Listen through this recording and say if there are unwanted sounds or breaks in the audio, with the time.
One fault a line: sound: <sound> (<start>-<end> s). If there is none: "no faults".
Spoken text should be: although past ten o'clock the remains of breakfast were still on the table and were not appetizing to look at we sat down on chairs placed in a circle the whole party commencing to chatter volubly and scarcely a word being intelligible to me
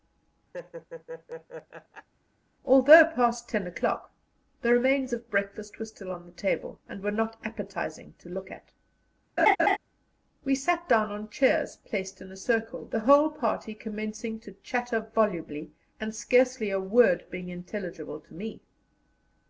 sound: laugh (0.5-2.1 s)
sound: laugh (9.4-9.8 s)